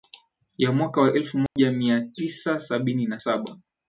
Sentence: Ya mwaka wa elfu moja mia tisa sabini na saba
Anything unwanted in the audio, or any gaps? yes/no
yes